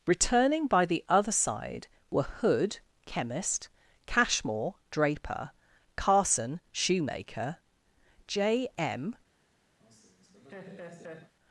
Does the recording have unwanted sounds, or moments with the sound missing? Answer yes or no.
yes